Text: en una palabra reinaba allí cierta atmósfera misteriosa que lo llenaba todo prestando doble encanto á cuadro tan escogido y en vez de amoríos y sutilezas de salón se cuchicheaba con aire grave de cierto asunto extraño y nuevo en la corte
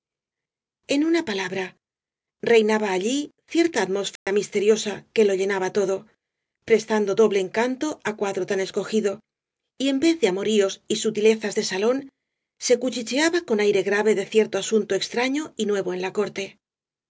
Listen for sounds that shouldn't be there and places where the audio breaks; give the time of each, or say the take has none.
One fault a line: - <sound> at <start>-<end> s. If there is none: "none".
- dropout at 4.2-4.3 s